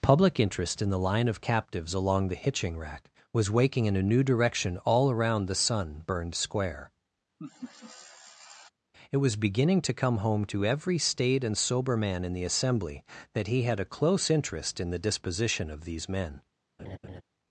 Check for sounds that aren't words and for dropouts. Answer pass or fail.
fail